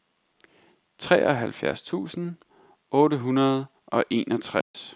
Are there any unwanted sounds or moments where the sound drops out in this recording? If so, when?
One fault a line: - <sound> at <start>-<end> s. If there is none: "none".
- dropout at 4.6-4.7 s